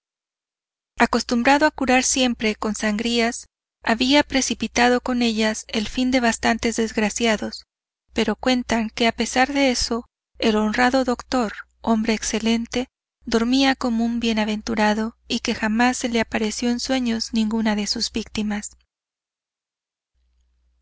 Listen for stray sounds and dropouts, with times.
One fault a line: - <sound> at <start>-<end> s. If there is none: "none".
none